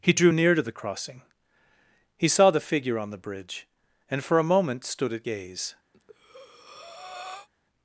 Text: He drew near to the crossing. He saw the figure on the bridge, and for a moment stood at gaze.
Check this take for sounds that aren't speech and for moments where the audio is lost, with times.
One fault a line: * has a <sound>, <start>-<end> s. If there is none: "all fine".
* has a breath, 5.9-7.5 s